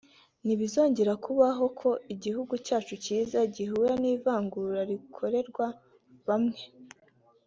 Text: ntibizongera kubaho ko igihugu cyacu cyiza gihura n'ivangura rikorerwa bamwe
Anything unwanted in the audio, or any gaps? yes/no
no